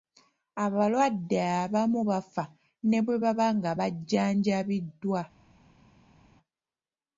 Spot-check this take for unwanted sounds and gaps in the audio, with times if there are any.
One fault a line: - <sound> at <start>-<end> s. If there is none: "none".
none